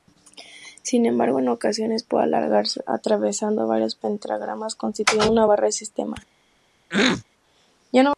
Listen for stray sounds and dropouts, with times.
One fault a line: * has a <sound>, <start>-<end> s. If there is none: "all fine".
* has a throat clearing, 6.9-7.2 s